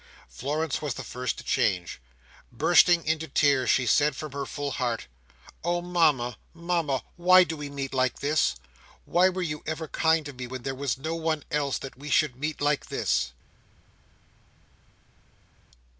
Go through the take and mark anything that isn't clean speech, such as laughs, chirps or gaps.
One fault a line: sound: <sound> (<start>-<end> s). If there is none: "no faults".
no faults